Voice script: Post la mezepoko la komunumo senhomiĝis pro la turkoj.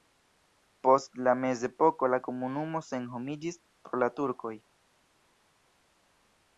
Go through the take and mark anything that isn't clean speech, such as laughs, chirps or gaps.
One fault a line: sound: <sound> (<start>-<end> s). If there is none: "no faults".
no faults